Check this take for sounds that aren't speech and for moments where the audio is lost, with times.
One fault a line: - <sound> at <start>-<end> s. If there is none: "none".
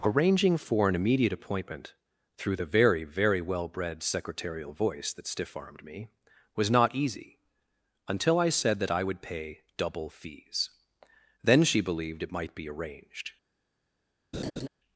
- laugh at 14.3-14.7 s